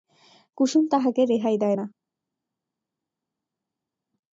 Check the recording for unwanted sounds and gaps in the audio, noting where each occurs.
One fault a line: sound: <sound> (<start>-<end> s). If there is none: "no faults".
no faults